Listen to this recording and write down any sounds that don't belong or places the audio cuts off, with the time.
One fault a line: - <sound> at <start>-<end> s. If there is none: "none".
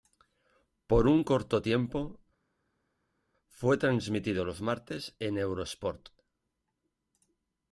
none